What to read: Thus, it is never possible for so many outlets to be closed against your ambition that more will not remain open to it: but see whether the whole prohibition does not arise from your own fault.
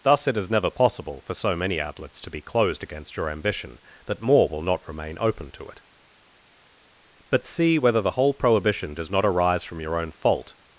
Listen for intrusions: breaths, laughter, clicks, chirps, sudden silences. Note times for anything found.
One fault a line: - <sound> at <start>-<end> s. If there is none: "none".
none